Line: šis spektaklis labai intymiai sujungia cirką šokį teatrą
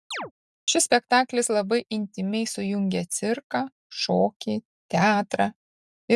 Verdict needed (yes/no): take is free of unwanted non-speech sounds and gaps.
no